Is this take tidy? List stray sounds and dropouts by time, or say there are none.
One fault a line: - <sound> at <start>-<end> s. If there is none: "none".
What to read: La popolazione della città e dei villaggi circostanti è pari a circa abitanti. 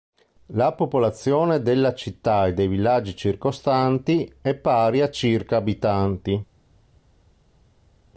none